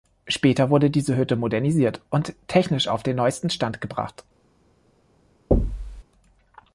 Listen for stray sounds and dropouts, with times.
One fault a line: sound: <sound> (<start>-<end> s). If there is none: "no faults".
sound: thud (5.5-6.0 s)